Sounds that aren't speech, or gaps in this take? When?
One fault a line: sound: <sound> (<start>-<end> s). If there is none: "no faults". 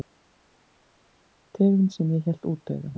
no faults